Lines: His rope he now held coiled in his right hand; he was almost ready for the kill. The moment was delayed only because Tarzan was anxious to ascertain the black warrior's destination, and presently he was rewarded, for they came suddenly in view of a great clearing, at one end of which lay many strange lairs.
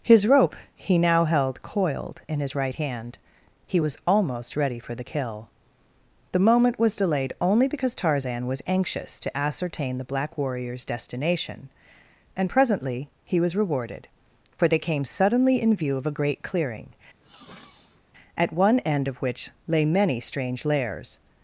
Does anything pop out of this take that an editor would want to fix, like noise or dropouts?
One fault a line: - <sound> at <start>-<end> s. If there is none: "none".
- sniff at 17.2-18.0 s